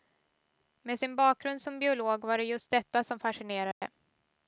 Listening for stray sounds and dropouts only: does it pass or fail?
fail